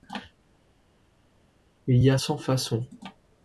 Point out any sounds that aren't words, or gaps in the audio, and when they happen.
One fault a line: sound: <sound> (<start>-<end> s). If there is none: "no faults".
no faults